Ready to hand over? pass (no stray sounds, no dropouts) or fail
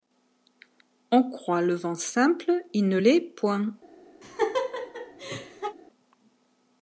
fail